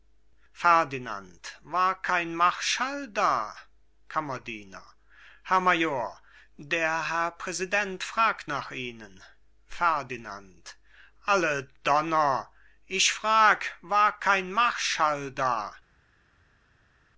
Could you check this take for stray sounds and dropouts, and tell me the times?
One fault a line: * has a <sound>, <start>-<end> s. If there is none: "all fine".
all fine